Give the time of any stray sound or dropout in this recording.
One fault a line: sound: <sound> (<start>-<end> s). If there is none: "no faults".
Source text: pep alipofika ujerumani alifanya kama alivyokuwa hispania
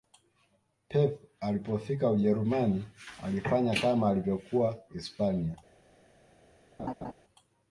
sound: laugh (6.8-7.1 s)